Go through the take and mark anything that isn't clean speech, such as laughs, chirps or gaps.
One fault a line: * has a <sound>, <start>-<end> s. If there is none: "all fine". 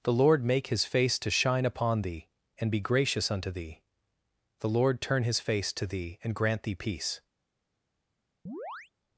* has a chirp, 8.5-8.9 s